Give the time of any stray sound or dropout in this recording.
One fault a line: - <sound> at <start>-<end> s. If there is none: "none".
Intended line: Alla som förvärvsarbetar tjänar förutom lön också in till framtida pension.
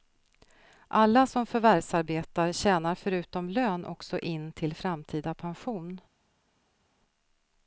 none